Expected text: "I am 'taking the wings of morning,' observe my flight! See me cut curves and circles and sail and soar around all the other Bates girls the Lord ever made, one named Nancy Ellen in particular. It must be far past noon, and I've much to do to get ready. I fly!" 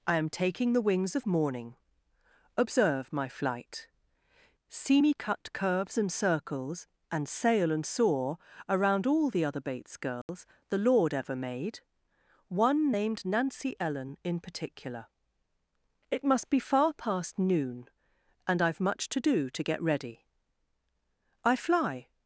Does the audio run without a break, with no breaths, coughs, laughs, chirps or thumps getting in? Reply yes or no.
no